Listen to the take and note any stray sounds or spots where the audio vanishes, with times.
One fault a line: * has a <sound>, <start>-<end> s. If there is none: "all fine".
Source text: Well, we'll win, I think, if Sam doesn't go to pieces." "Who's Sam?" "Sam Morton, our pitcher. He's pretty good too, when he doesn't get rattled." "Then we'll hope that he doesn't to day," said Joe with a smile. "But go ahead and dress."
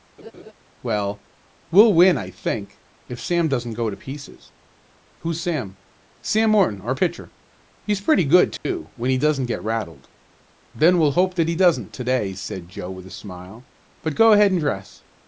* has a laugh, 0.2-0.5 s
* has a dropout, 8.6-8.7 s